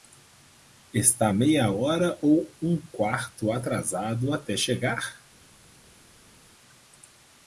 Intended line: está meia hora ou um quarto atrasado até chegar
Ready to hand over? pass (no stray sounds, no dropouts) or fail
pass